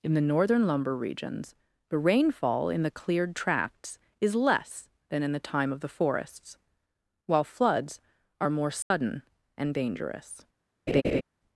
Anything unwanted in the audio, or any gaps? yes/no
yes